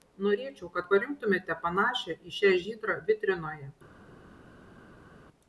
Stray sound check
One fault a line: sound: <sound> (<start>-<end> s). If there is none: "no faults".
no faults